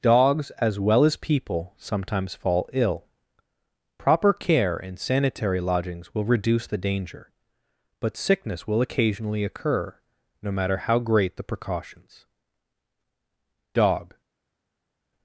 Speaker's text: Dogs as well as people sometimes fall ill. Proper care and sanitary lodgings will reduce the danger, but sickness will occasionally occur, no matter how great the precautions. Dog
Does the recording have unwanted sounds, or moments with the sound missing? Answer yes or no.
no